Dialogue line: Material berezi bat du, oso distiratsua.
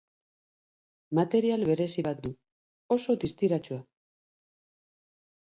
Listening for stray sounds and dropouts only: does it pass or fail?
pass